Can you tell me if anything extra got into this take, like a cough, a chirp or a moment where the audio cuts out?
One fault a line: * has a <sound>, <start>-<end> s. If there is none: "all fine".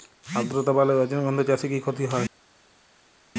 all fine